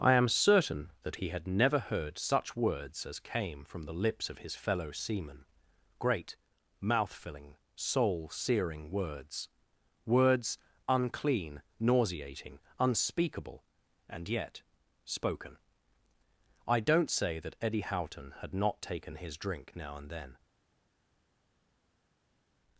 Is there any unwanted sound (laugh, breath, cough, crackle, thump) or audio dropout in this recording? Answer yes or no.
no